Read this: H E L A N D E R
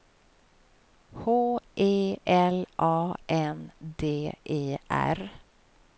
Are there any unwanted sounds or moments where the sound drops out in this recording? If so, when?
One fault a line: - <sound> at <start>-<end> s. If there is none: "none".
none